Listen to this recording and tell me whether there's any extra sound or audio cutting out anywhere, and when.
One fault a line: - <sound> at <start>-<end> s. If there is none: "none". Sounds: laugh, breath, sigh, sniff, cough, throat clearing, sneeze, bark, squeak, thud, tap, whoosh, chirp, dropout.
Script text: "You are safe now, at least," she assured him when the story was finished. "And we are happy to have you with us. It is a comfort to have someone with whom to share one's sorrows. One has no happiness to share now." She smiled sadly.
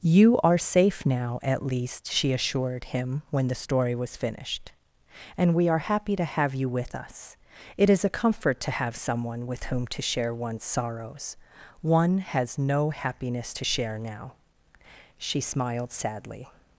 none